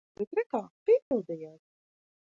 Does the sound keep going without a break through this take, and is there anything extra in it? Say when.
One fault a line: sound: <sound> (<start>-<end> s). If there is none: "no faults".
sound: dropout (1.0-1.1 s)